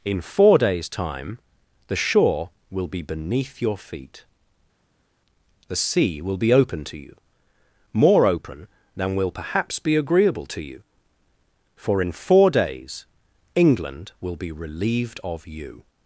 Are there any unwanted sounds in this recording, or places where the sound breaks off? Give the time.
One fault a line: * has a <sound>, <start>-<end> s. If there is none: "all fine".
all fine